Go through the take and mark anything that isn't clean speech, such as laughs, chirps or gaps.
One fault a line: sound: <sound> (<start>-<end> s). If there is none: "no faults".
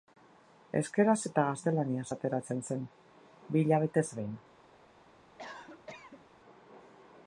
sound: cough (5.4-6.3 s)